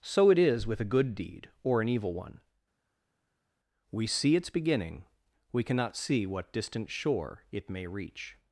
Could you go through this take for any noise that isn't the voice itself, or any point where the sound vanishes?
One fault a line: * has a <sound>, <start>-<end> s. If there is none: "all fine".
all fine